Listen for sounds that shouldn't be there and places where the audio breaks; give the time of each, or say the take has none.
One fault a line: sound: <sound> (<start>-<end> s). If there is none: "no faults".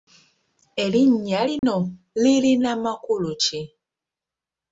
sound: dropout (1.6-1.6 s)